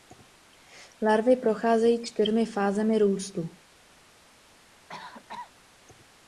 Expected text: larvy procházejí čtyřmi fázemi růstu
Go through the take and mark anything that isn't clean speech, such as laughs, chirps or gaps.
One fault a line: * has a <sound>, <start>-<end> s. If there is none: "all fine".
* has a cough, 4.9-5.5 s